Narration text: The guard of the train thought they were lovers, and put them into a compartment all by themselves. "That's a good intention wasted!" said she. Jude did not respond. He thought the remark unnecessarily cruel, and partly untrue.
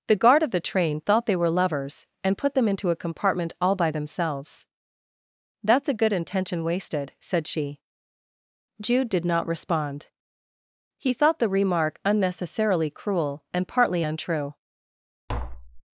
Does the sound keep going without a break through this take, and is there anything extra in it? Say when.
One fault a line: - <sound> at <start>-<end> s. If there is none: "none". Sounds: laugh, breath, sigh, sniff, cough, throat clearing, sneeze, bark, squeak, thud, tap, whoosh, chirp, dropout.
- tap at 15.3-15.8 s